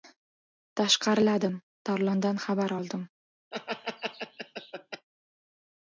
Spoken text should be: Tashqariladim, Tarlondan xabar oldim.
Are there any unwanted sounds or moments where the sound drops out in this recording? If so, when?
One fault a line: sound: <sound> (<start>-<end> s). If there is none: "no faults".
sound: laugh (3.5-5.1 s)